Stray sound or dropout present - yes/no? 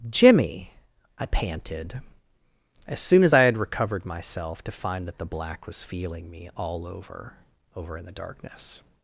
no